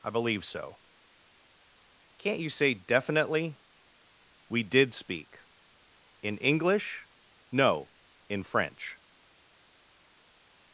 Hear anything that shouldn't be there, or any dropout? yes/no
no